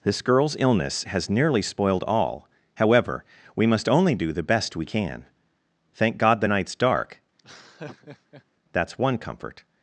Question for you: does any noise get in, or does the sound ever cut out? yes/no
yes